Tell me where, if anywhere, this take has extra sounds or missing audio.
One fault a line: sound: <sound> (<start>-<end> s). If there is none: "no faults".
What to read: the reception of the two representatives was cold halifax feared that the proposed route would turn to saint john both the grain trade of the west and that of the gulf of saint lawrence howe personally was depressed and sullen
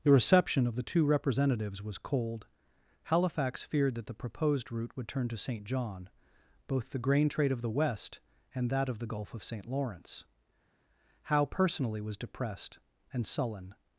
no faults